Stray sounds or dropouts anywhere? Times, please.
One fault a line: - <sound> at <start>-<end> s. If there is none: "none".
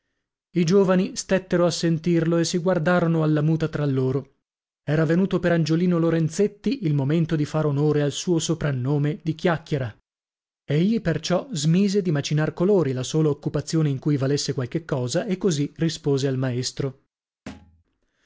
- thud at 17.5-17.8 s